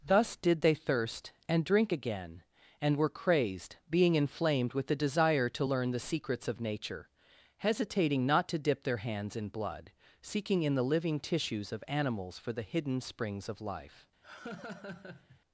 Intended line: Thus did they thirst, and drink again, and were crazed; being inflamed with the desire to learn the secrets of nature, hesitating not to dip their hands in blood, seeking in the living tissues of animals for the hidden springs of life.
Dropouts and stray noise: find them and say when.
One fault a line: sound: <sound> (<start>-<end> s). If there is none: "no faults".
sound: laugh (14.2-15.4 s)